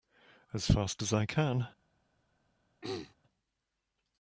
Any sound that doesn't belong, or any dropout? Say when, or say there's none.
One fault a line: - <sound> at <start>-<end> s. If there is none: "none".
- throat clearing at 2.8-3.1 s